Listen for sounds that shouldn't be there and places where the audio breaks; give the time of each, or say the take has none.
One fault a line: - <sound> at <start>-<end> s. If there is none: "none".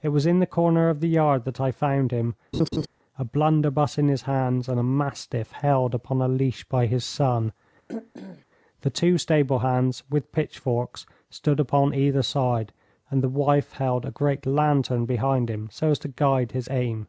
- laugh at 2.5-2.9 s
- throat clearing at 7.9-8.5 s